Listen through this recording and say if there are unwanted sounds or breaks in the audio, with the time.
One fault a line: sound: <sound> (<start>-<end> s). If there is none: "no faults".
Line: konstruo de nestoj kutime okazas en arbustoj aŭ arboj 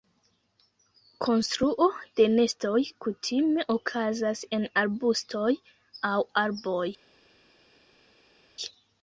no faults